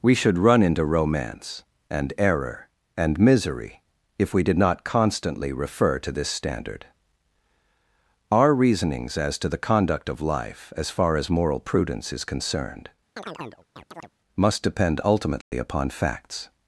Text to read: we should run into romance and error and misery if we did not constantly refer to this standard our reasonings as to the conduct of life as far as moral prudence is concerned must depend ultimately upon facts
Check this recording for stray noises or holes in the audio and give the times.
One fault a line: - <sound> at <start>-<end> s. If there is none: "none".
- chirp at 13.2-14.1 s
- dropout at 15.4-15.5 s